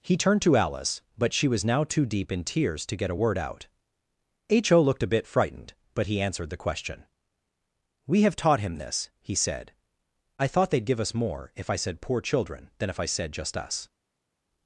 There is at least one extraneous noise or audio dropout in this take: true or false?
false